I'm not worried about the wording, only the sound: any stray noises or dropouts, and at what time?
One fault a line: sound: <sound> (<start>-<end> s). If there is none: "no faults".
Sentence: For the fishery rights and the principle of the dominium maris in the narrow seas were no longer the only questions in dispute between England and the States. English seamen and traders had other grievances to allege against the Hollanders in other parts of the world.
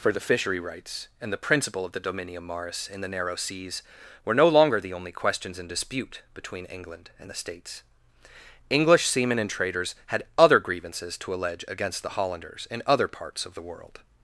no faults